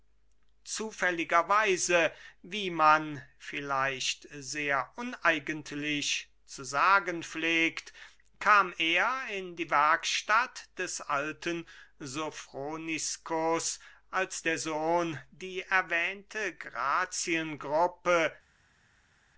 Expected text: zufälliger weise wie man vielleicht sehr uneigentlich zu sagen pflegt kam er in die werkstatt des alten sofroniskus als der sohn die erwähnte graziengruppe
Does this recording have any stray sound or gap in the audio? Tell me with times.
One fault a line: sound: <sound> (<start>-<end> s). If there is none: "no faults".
no faults